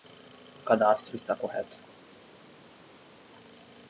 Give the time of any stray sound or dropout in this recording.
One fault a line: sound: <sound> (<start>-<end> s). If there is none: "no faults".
no faults